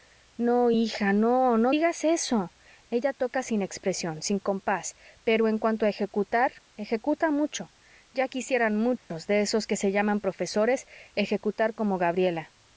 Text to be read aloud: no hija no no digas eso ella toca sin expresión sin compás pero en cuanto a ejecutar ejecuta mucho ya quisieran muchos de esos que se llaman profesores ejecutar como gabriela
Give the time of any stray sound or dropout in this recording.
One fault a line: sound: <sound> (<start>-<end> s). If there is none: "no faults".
sound: dropout (9.0-9.1 s)